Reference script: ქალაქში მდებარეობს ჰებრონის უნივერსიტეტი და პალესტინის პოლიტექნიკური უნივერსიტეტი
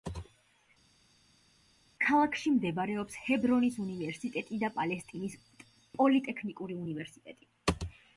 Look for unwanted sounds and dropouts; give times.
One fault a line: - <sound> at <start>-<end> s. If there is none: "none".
none